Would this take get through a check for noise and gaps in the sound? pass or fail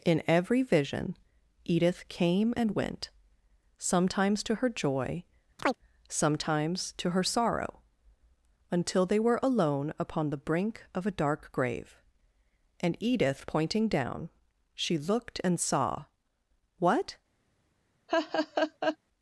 fail